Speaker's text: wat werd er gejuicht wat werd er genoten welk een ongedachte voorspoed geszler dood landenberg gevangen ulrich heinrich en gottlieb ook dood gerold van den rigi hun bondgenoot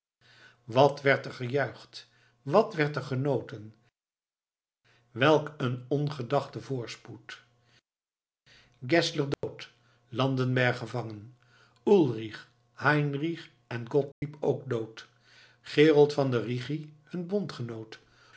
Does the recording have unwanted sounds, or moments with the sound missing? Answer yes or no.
yes